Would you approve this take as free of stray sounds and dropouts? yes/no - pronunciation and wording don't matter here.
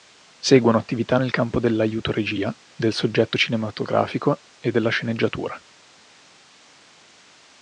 yes